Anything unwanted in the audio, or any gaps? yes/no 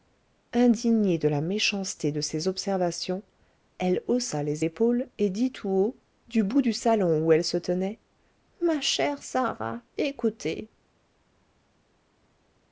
no